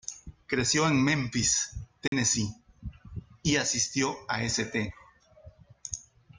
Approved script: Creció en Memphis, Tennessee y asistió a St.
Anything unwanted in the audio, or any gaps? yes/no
yes